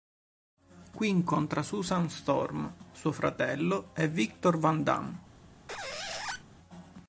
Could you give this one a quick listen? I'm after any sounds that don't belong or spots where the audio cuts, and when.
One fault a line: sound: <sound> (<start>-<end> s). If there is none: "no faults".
sound: squeak (5.7-6.4 s)